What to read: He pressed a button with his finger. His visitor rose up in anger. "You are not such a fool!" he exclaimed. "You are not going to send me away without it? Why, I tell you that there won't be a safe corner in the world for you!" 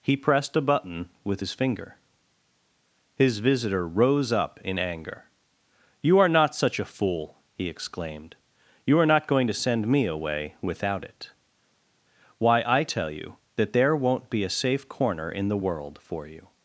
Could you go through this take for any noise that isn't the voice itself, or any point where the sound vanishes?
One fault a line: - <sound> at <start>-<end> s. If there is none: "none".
none